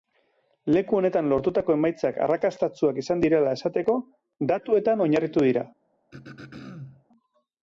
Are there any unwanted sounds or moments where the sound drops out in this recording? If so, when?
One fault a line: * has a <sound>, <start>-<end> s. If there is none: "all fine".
* has a throat clearing, 6.1-7.0 s